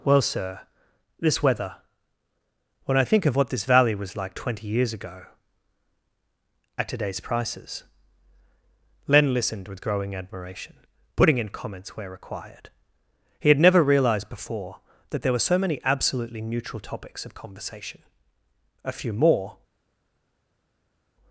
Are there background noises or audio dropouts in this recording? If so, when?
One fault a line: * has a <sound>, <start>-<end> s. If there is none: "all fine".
all fine